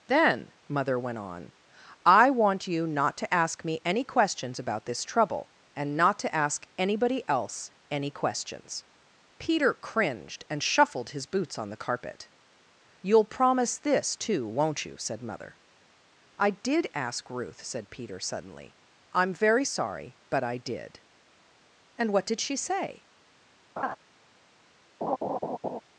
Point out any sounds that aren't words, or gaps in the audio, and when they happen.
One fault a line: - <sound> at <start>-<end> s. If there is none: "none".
- laugh at 23.8-24.0 s
- laugh at 25.0-25.8 s